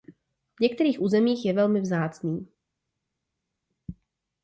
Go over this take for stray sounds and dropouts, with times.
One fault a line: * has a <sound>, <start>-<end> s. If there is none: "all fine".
all fine